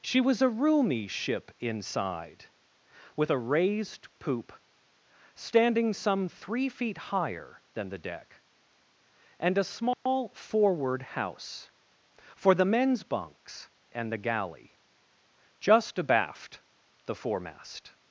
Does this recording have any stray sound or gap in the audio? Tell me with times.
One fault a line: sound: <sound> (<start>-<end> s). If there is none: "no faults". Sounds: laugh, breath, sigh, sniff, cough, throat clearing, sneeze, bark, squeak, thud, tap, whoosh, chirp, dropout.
sound: dropout (9.9-10.1 s)